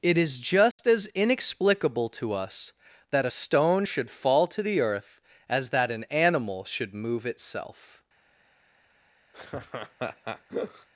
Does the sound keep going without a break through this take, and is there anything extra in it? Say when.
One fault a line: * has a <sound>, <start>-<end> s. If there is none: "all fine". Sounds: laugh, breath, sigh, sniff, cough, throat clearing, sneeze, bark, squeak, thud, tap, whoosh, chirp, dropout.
* has a dropout, 0.7-0.8 s
* has a laugh, 9.3-10.9 s